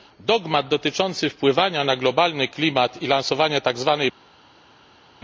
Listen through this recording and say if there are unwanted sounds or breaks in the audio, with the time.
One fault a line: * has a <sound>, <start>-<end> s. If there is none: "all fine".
all fine